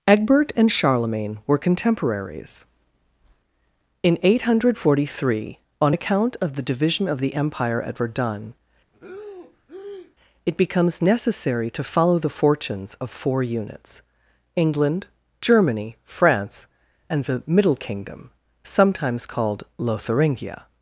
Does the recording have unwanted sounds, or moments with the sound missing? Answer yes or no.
yes